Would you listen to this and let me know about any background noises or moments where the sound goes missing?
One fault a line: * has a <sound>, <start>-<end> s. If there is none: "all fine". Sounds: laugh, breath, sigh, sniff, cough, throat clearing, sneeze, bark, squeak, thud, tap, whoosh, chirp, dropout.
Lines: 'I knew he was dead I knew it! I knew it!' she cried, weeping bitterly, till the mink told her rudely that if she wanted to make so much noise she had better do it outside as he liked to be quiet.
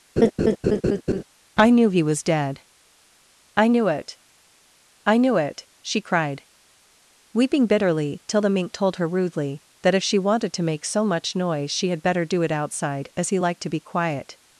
* has a laugh, 0.2-1.2 s